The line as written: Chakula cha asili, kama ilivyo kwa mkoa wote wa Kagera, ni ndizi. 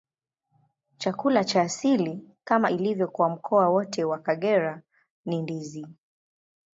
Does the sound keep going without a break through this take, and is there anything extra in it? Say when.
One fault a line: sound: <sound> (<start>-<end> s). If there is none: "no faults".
no faults